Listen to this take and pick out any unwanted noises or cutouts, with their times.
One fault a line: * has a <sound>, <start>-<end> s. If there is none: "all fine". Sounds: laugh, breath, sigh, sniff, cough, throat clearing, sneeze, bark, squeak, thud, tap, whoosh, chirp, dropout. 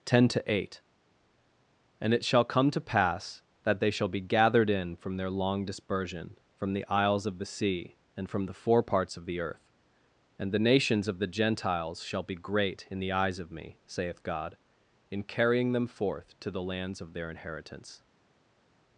all fine